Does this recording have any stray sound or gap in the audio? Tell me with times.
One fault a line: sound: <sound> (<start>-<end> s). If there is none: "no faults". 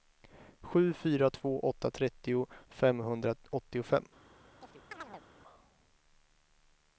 sound: chirp (4.6-5.2 s)